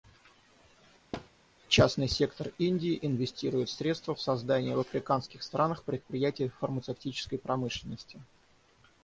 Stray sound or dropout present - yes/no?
yes